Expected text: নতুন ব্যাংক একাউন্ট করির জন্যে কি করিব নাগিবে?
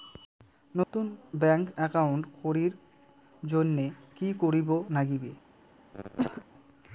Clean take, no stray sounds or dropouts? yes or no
no